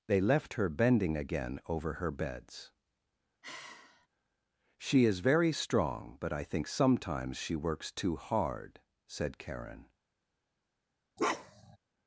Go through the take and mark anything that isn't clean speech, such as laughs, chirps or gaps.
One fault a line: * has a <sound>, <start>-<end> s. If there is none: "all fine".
* has a sigh, 3.4-4.1 s
* has a bark, 11.2-11.8 s